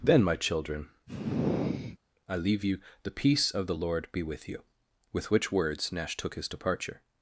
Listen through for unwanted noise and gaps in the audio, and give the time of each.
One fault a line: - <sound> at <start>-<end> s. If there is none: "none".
- sigh at 1.1-2.0 s